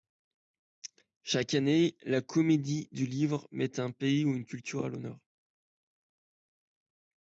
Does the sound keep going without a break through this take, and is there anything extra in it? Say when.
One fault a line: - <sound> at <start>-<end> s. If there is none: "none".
none